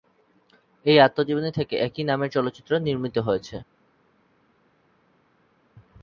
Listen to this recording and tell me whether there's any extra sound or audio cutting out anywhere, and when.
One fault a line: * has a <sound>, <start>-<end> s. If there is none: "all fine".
all fine